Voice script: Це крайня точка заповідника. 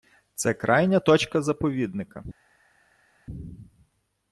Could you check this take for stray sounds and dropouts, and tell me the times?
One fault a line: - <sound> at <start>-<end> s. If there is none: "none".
none